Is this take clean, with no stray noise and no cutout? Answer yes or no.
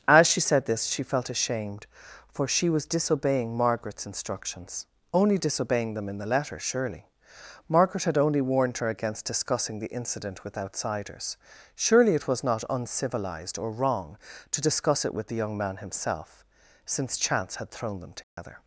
no